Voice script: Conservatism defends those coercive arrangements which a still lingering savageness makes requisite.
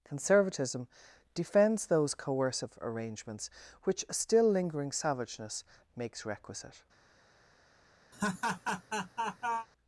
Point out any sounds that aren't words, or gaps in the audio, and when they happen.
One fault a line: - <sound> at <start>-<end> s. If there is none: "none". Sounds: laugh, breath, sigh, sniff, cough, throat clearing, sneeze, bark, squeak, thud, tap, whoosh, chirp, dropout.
- laugh at 8.1-9.7 s